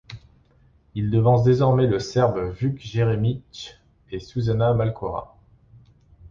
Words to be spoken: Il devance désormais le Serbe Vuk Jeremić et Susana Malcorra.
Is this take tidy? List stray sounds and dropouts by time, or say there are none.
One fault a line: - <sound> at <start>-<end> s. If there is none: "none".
none